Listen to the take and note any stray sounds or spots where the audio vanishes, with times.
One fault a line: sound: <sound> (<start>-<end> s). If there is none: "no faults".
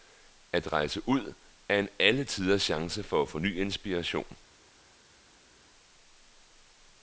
no faults